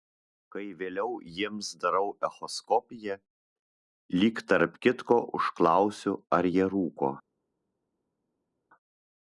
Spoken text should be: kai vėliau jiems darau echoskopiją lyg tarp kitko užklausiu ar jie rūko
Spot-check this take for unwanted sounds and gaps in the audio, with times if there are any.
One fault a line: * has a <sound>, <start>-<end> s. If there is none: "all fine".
all fine